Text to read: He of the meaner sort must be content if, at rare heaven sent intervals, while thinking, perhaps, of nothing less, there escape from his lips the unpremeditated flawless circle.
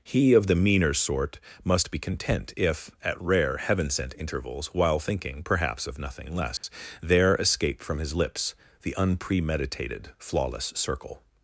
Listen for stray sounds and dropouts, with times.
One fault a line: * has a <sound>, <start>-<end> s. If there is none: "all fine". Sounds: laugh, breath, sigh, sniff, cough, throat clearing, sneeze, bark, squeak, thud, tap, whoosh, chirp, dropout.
* has a dropout, 6.6-6.6 s